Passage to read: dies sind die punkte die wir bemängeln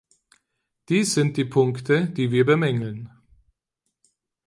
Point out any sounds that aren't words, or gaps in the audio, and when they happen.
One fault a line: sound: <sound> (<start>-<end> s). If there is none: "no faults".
no faults